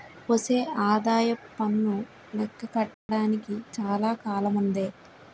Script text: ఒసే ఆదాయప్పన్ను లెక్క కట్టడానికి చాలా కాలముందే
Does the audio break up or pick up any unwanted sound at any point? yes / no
yes